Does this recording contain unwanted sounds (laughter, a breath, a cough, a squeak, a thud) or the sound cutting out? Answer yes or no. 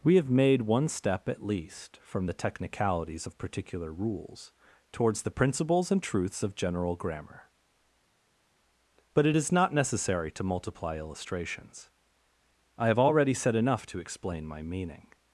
no